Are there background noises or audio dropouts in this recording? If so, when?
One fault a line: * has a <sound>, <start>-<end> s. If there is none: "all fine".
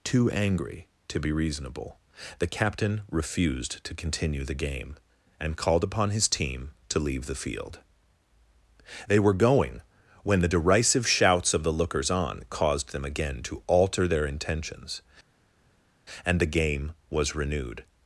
all fine